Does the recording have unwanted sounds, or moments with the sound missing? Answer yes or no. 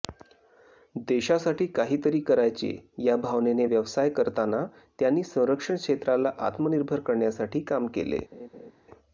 yes